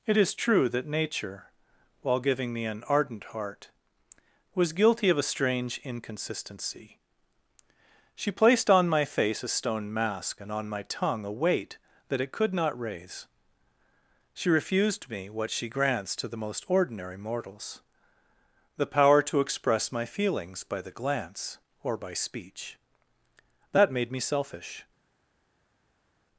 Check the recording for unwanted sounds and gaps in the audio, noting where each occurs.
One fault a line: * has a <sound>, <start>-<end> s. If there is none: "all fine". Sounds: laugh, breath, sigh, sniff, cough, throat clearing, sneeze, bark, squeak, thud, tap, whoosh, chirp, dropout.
all fine